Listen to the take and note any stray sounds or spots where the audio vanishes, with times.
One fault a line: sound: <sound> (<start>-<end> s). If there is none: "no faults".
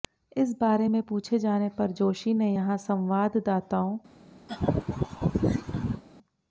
sound: laugh (4.5-6.0 s)